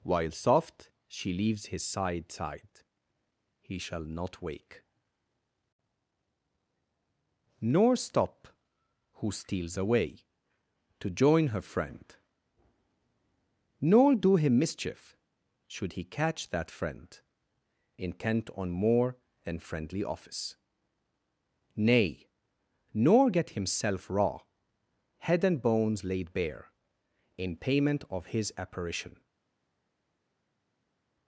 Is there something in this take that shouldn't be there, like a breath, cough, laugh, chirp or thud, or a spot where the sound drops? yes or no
no